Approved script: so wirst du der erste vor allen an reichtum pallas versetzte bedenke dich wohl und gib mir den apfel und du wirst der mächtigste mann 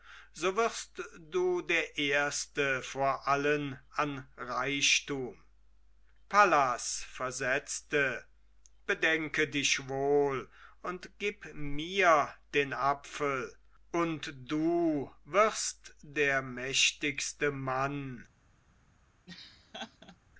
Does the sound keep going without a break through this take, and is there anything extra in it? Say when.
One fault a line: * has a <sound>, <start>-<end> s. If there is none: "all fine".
* has a laugh, 19.3-20.2 s